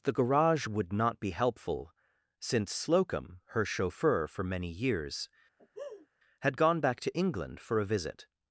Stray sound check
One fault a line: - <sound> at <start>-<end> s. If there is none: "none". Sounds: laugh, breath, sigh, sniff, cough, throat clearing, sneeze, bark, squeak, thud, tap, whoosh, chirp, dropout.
- laugh at 5.6-6.1 s